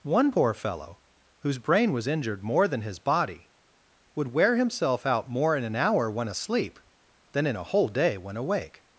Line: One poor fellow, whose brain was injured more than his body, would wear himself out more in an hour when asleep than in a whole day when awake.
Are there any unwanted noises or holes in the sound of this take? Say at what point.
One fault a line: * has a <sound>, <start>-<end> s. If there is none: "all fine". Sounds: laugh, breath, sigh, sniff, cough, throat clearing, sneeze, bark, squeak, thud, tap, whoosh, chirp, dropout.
all fine